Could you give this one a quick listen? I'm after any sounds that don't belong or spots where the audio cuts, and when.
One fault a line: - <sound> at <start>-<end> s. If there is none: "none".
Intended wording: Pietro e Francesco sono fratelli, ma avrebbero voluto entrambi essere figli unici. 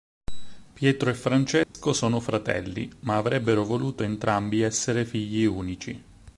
- dropout at 1.6-1.7 s